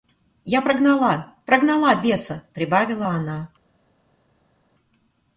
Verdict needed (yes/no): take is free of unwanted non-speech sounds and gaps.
yes